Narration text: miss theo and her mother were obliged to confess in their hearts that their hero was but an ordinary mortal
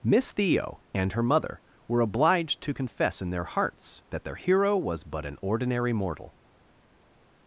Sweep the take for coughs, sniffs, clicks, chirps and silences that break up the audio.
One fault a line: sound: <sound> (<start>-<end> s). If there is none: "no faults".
no faults